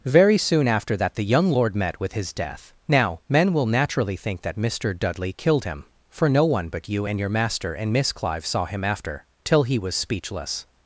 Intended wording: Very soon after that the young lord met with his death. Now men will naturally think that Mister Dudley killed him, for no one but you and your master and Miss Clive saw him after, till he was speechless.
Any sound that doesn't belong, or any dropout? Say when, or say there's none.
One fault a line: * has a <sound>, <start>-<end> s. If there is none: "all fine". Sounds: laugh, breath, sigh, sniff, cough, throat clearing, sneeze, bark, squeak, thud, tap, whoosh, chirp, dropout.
all fine